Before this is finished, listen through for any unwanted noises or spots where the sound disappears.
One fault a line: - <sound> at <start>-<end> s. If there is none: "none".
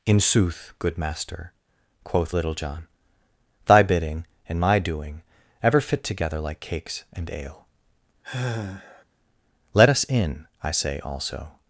- sigh at 8.2-9.0 s